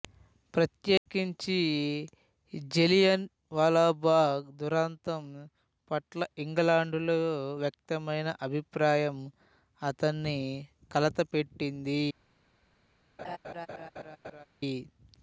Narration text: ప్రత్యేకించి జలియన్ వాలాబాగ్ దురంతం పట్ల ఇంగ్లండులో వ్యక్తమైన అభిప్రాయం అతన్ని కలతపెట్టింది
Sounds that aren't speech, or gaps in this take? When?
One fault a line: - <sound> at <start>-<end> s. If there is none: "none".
- dropout at 1.0-1.1 s
- laugh at 13.2-14.5 s